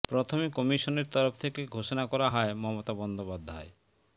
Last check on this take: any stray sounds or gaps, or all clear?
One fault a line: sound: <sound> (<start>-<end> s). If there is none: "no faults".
no faults